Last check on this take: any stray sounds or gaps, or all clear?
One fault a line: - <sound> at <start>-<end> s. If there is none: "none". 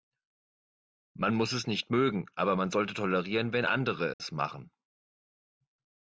- dropout at 4.1-4.2 s